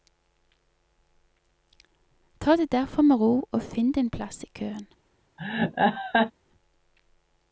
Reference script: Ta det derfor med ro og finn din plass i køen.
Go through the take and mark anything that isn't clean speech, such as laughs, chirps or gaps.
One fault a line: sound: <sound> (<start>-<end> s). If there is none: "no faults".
sound: laugh (5.4-6.3 s)